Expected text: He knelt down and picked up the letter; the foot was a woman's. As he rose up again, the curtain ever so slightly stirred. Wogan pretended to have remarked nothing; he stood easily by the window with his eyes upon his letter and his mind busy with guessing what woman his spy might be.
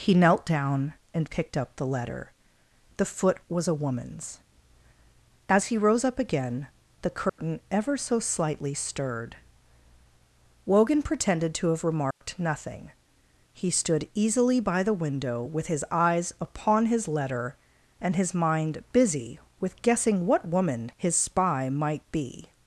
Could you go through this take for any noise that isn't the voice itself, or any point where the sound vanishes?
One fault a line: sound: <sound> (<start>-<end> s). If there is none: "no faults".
sound: dropout (7.3-7.4 s)
sound: dropout (12.1-12.2 s)